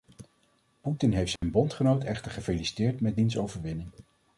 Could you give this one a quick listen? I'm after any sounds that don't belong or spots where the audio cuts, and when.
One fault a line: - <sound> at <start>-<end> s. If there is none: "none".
- dropout at 1.4-1.4 s